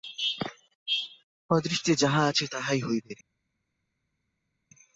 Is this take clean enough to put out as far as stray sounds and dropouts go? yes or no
yes